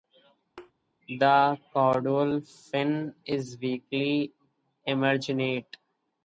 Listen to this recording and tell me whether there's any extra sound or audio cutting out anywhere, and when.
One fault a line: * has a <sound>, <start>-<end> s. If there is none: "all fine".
* has a thud, 0.6-0.7 s